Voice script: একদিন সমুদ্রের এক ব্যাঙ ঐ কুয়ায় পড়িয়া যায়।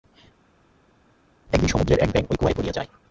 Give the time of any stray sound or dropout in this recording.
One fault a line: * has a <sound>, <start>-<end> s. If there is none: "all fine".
all fine